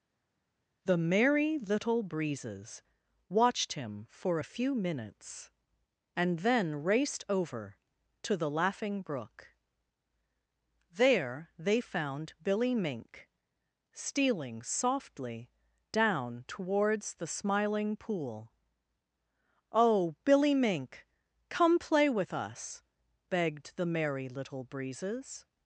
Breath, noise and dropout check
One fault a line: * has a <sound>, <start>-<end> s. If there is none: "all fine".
all fine